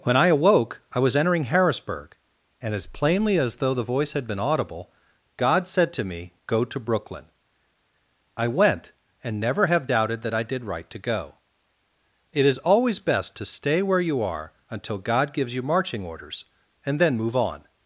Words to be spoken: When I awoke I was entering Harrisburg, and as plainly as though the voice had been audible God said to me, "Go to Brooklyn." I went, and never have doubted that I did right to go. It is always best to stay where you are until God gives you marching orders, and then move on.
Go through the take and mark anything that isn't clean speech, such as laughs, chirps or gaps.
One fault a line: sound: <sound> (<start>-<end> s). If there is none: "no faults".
no faults